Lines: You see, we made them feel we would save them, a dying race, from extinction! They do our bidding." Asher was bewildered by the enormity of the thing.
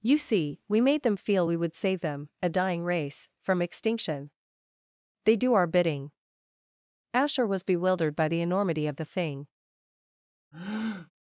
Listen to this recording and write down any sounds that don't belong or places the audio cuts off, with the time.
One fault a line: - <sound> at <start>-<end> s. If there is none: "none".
- breath at 10.5-11.1 s